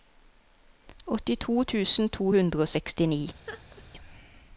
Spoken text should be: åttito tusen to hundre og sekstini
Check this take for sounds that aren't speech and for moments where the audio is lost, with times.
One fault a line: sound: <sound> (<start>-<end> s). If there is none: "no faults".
sound: laugh (3.5-3.8 s)